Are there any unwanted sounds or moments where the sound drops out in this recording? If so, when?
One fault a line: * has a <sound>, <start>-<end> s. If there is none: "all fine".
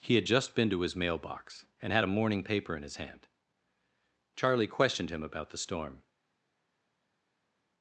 all fine